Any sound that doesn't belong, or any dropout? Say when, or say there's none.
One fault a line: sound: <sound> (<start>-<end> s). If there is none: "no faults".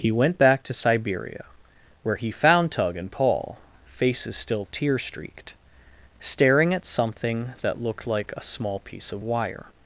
no faults